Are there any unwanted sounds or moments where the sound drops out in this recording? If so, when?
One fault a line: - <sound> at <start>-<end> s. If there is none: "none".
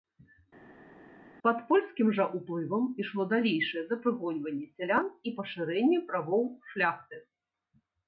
none